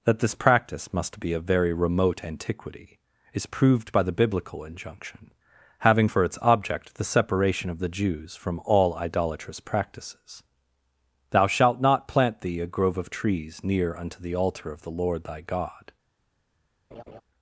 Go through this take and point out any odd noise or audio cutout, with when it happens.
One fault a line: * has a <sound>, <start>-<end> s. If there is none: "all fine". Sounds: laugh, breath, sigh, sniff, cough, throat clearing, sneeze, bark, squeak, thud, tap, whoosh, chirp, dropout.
* has a laugh, 16.9-17.2 s